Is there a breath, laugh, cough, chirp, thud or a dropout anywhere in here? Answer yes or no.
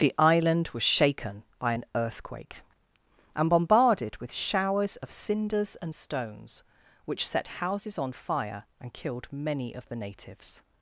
no